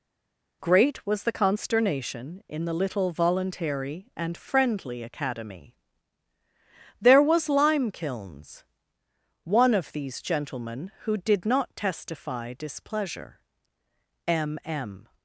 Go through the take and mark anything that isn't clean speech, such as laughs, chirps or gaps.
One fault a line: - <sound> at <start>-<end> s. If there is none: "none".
none